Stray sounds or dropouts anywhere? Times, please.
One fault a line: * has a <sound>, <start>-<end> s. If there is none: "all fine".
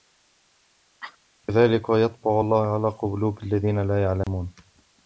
* has a cough, 1.0-1.2 s
* has a dropout, 4.2-4.3 s